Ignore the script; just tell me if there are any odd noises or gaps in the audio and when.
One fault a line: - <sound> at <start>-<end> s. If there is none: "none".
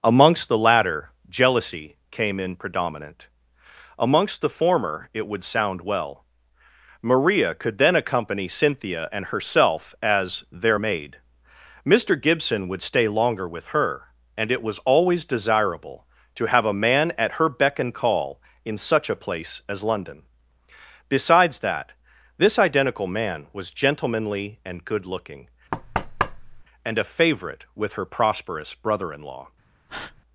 - thud at 25.7-26.6 s
- breath at 29.9-30.2 s